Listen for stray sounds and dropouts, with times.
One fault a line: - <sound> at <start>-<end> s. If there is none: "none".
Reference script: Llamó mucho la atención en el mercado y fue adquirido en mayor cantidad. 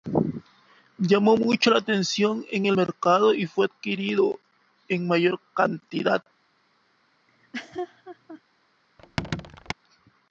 - laugh at 7.3-8.4 s
- squeak at 9.0-9.7 s